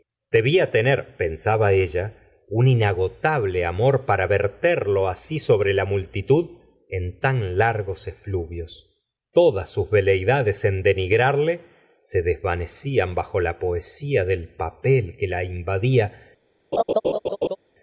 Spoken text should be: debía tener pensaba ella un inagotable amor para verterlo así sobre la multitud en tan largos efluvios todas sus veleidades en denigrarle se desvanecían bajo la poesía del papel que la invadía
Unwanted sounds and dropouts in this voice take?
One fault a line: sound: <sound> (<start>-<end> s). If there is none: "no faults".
sound: laugh (16.7-17.6 s)